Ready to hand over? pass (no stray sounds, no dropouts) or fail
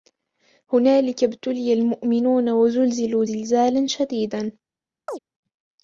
fail